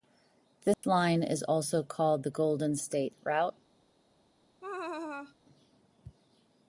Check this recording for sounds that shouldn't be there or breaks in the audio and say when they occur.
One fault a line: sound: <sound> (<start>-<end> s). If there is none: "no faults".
sound: dropout (0.7-0.8 s)
sound: laugh (4.6-5.4 s)